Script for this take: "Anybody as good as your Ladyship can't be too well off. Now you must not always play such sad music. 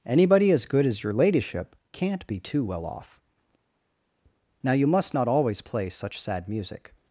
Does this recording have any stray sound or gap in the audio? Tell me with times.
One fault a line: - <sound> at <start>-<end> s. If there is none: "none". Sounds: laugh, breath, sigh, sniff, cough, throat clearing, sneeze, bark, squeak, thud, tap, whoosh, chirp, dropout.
none